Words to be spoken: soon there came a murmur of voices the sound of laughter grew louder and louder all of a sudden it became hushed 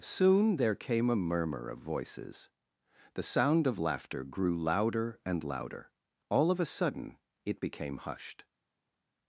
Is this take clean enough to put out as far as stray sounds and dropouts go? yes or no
yes